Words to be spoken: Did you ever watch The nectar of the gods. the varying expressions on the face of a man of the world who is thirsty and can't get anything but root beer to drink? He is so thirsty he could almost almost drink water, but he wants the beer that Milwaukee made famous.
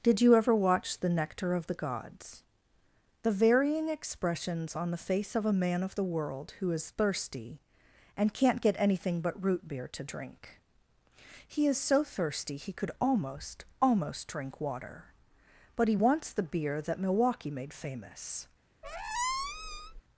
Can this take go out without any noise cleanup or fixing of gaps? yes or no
no